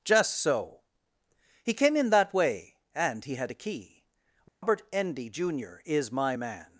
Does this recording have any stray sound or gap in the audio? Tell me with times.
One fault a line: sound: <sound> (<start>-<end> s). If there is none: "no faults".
sound: dropout (4.5-4.6 s)